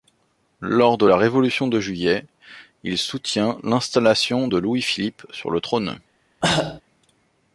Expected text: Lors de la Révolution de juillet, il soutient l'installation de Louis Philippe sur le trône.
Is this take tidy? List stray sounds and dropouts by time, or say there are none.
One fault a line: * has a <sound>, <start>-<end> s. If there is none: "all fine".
* has a cough, 6.4-6.8 s